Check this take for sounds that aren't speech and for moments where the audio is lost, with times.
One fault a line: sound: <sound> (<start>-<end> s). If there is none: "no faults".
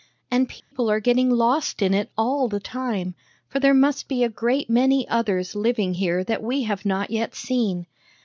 sound: dropout (0.6-0.7 s)